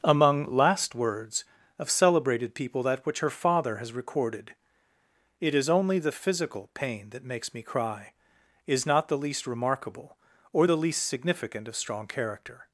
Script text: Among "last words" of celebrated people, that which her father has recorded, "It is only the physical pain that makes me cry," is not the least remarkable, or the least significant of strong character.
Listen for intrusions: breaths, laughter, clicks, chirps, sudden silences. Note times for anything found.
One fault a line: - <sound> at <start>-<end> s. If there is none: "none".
none